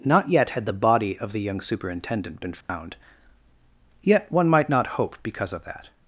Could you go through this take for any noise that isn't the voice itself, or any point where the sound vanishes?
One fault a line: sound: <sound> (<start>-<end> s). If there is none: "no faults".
sound: dropout (2.6-2.7 s)